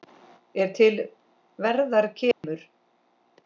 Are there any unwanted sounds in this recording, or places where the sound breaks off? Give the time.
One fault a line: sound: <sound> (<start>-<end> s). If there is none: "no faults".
sound: dropout (2.3-2.4 s)